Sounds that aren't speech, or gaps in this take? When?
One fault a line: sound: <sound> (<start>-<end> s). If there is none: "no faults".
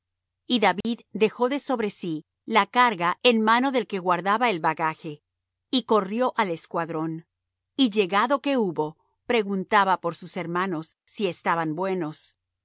sound: dropout (0.8-0.8 s)